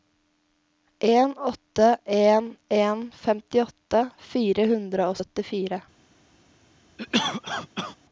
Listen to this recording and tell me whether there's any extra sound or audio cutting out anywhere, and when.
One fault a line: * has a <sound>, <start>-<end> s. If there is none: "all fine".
* has a cough, 7.0-8.0 s